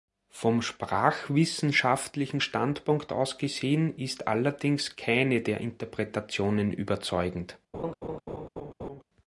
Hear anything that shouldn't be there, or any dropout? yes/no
yes